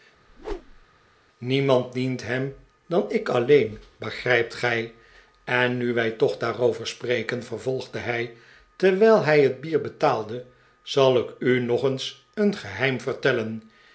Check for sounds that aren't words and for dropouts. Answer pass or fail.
fail